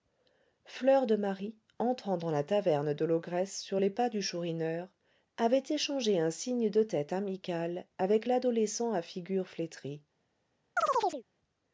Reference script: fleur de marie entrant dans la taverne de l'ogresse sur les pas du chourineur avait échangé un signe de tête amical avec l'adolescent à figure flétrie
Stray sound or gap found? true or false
true